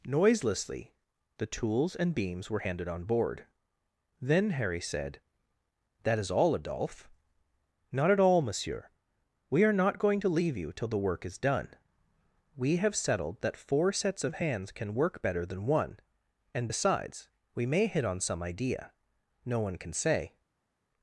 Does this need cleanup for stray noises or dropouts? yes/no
no